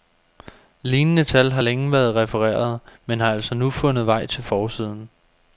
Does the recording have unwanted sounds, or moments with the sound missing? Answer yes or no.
no